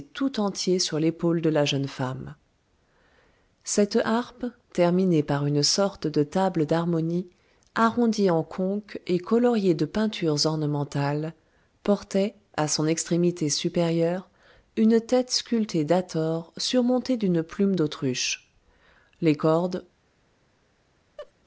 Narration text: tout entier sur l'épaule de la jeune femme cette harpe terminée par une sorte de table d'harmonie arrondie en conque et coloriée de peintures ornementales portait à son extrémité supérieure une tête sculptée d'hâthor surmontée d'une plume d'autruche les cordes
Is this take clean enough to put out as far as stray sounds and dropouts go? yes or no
no